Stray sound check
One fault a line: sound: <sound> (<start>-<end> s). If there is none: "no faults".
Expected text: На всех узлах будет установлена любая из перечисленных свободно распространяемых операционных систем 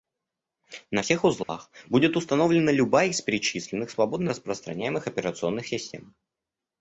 sound: dropout (1.4-1.5 s)